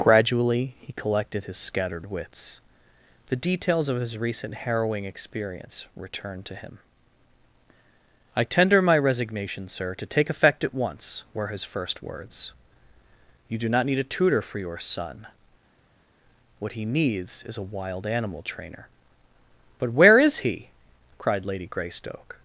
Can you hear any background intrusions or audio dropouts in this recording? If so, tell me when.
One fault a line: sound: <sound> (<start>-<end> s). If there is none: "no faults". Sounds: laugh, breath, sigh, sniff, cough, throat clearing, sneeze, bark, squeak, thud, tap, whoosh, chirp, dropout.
no faults